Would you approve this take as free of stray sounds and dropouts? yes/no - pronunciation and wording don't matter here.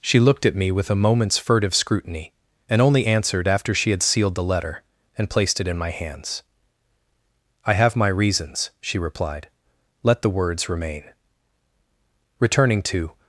yes